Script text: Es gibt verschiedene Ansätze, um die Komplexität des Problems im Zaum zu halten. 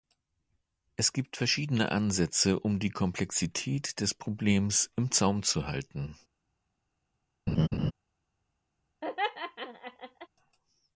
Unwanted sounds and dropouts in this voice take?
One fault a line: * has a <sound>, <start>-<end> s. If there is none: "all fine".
* has a laugh, 7.5-7.9 s
* has a laugh, 9.0-10.3 s